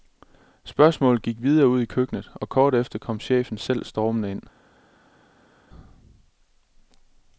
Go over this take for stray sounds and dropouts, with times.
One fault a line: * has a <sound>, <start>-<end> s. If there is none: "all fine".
all fine